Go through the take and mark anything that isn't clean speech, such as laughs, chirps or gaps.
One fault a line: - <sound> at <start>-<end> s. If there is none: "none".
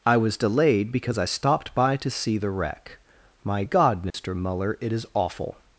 - dropout at 4.1-4.1 s